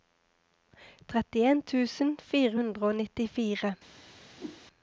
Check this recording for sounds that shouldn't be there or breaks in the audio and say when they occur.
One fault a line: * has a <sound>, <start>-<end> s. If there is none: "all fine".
* has a whoosh, 4.4-4.6 s